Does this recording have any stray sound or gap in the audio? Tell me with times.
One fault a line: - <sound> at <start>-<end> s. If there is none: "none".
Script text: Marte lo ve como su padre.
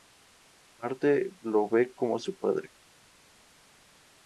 none